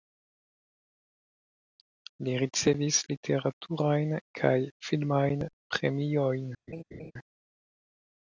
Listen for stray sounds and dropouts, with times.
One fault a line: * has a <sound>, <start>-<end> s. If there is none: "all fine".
* has a laugh, 6.7-7.1 s